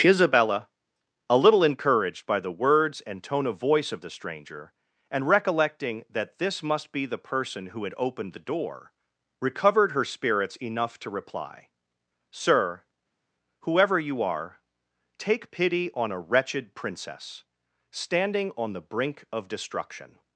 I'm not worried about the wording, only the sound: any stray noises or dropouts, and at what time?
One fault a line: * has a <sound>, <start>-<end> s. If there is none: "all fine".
all fine